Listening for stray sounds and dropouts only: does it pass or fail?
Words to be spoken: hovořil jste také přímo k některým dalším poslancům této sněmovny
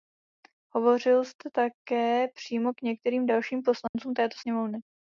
fail